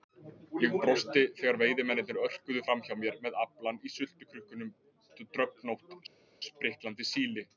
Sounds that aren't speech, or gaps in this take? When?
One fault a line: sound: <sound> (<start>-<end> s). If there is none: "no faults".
no faults